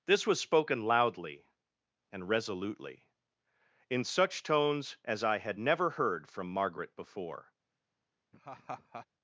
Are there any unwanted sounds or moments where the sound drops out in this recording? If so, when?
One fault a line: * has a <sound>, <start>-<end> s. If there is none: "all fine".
* has a laugh, 8.3-9.1 s